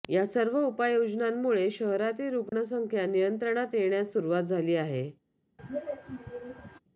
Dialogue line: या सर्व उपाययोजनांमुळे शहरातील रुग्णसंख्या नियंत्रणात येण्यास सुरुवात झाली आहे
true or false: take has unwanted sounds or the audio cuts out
true